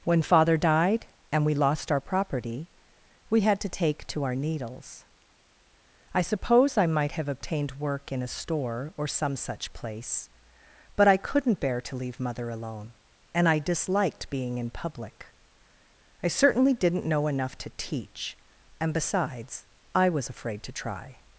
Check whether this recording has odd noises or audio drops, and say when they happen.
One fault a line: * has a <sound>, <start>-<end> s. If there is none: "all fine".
all fine